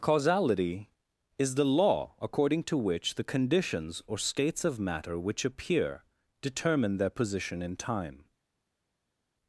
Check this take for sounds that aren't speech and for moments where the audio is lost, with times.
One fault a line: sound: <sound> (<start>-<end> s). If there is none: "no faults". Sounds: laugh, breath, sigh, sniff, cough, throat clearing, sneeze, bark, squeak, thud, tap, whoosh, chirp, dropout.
no faults